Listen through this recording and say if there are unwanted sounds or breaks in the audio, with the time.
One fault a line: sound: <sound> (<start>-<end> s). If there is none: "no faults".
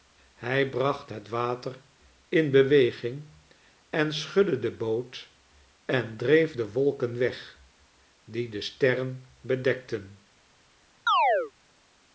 sound: chirp (11.1-11.5 s)